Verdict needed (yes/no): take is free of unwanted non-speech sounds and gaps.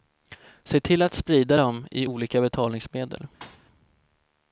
no